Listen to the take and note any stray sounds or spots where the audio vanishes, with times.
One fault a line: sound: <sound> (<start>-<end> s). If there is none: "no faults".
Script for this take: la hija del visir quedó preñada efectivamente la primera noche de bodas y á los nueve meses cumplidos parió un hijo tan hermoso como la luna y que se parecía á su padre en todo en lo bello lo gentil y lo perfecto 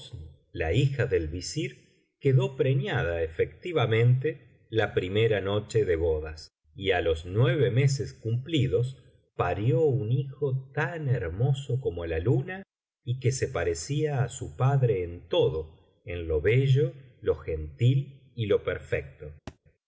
sound: thud (19.5-19.6 s)